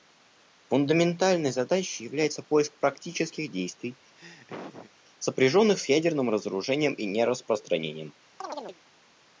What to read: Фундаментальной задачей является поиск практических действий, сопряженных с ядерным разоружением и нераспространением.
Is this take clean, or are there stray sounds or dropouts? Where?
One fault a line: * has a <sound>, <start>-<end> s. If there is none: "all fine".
* has a laugh, 4.2-4.9 s
* has a chirp, 8.4-8.8 s